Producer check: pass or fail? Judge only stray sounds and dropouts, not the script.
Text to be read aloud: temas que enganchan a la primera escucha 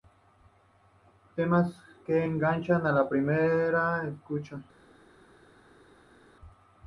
pass